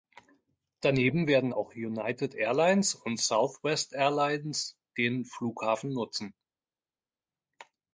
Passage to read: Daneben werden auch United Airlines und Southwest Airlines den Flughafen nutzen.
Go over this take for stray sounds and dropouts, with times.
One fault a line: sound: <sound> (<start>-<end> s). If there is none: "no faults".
no faults